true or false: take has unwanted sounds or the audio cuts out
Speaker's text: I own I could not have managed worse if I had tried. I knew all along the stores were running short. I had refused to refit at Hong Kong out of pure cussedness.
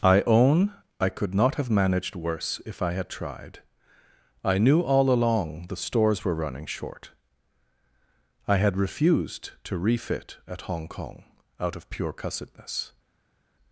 false